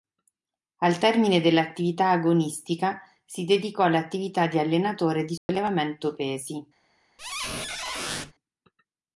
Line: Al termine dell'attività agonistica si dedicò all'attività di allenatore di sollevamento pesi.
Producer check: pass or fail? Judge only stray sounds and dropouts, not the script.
fail